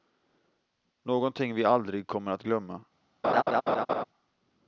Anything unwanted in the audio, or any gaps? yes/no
yes